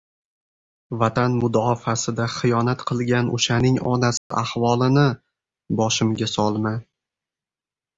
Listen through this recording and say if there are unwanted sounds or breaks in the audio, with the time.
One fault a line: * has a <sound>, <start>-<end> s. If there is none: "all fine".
* has a dropout, 4.2-4.3 s